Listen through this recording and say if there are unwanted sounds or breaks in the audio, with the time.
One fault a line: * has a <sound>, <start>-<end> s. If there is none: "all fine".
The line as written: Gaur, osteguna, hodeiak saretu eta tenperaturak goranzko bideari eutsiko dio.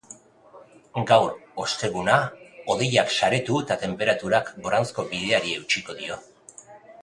all fine